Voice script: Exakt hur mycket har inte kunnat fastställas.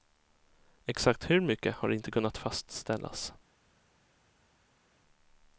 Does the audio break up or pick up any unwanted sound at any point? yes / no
no